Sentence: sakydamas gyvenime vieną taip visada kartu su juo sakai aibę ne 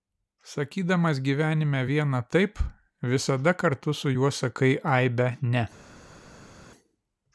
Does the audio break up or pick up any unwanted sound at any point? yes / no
no